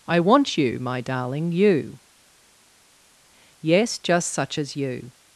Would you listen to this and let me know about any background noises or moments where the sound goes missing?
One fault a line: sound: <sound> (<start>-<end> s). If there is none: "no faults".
no faults